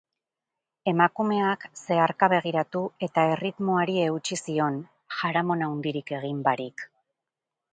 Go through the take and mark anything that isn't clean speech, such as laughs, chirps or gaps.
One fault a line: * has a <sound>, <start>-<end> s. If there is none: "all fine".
all fine